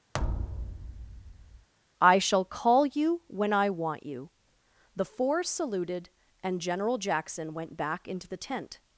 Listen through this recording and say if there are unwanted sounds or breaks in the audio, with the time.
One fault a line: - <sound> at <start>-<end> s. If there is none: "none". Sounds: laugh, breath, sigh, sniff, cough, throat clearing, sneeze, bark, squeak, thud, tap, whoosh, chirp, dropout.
- thud at 0.1-1.7 s